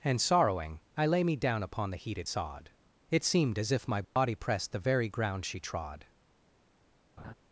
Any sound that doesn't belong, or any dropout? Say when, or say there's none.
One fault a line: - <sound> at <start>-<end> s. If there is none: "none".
- dropout at 4.0-4.2 s
- laugh at 7.2-7.3 s